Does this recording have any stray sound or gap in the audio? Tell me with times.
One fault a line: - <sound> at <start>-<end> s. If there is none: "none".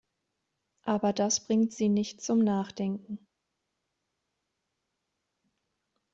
none